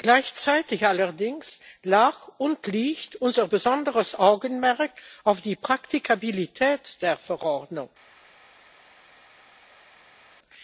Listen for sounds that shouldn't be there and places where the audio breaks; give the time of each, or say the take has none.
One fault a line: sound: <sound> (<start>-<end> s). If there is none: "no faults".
no faults